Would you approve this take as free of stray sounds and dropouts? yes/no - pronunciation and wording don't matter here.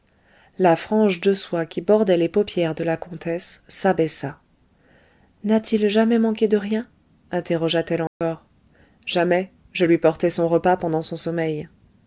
no